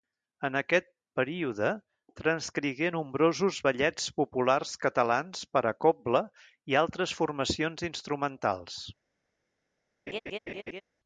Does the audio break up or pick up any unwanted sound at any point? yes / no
yes